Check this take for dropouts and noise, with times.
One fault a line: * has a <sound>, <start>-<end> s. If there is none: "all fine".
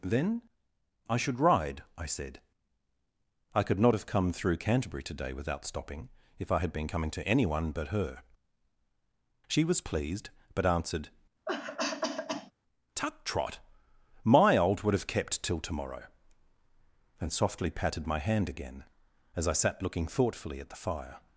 * has a cough, 11.5-12.5 s